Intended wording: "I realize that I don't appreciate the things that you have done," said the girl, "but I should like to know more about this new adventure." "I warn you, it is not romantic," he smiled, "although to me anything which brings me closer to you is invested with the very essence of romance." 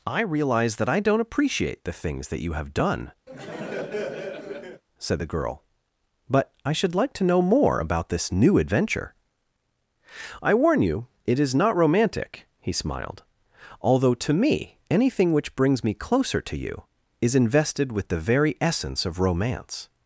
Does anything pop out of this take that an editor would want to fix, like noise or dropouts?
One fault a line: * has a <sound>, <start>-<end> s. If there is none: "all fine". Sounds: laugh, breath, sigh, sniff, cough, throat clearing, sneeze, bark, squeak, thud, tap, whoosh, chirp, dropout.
* has a laugh, 3.3-4.8 s